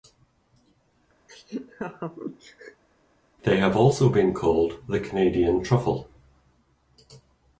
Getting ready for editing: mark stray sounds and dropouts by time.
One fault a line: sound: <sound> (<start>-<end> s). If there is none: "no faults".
sound: laugh (1.3-2.8 s)